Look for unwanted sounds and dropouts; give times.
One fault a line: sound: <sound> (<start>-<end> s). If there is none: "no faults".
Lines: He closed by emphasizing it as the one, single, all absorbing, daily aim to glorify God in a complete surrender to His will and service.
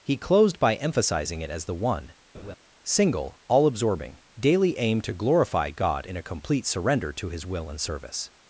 sound: laugh (2.3-2.6 s)